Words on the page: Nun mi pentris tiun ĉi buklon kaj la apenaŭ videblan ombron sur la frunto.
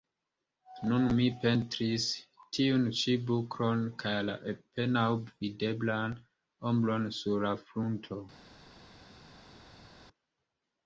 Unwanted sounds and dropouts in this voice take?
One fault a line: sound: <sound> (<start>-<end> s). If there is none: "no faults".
no faults